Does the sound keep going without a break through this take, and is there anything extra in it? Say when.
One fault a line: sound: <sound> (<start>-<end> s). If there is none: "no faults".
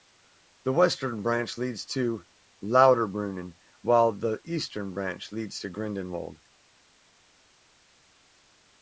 no faults